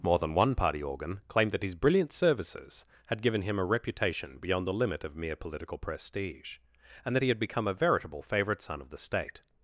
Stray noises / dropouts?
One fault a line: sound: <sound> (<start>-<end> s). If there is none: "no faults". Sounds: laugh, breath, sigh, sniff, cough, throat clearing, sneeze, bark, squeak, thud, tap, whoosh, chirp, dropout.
no faults